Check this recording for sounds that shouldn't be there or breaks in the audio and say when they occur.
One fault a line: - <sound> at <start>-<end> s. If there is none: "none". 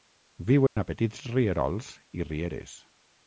- dropout at 0.7-0.8 s